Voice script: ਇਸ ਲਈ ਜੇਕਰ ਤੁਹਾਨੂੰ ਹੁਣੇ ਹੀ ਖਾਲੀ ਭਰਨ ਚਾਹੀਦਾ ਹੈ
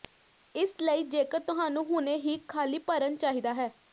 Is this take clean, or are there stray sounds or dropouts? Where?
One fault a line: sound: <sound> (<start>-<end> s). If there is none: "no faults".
no faults